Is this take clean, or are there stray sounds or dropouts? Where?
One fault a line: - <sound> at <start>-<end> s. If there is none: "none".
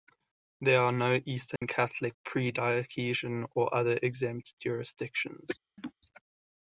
- dropout at 1.6-1.6 s
- laugh at 5.8-5.9 s